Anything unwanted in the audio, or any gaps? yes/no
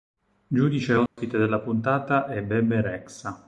yes